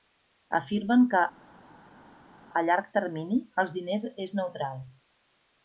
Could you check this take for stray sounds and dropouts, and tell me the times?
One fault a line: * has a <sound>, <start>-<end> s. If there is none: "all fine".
all fine